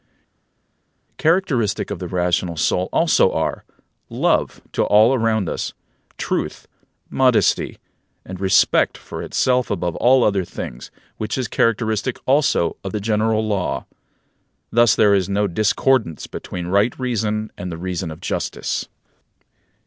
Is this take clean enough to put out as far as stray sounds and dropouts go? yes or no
yes